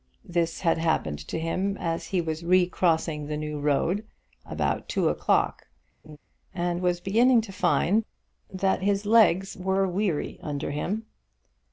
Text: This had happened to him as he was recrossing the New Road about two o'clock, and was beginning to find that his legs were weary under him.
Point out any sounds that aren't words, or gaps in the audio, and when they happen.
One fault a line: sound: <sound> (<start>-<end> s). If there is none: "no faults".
sound: laugh (6.0-6.2 s)